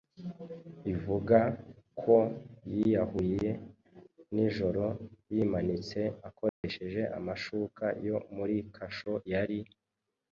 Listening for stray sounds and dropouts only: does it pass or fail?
fail